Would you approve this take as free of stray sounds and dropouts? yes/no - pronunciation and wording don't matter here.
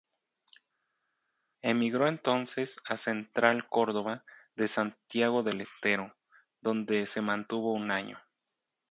yes